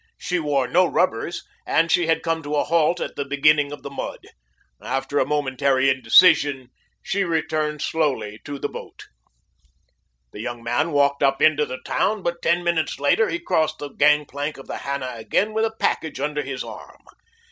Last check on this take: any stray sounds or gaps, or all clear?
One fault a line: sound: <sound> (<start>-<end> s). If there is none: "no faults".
no faults